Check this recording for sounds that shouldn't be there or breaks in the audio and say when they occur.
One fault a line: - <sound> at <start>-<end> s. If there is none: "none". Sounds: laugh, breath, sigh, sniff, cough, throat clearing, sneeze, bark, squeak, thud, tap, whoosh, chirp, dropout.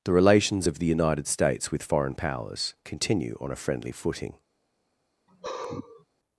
- sigh at 5.3-6.1 s